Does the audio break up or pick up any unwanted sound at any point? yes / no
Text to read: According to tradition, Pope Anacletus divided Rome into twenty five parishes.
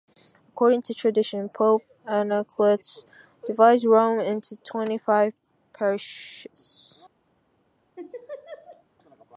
yes